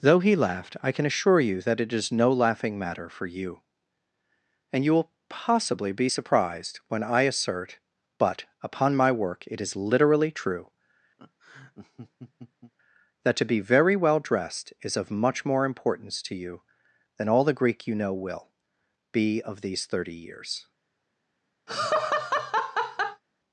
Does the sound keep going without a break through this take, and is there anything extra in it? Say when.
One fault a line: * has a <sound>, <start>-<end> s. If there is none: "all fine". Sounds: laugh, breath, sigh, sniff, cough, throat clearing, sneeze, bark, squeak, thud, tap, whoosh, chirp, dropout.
* has a laugh, 11.2-12.7 s
* has a laugh, 21.7-23.2 s